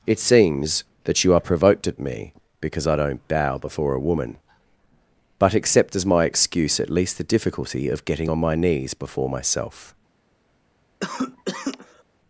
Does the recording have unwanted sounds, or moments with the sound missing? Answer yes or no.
yes